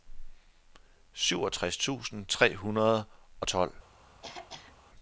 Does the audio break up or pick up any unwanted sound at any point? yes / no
yes